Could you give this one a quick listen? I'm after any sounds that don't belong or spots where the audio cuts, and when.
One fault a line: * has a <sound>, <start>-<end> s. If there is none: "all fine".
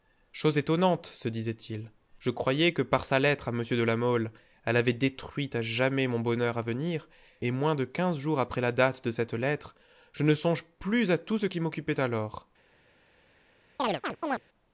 * has a chirp, 13.8-14.4 s